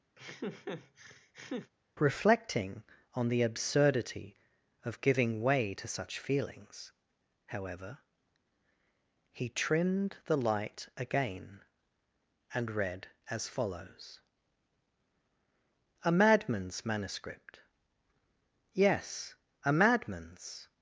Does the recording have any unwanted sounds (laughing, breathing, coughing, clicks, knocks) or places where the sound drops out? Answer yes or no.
yes